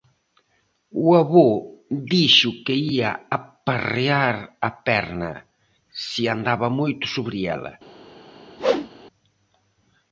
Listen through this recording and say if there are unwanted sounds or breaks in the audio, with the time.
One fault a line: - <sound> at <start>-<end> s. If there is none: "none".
- whoosh at 8.6-8.9 s